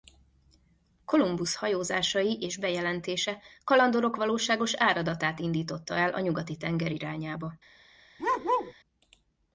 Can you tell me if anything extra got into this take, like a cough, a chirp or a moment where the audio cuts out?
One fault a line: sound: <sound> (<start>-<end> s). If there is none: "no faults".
sound: bark (8.2-8.7 s)